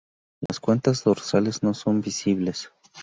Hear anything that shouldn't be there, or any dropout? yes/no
yes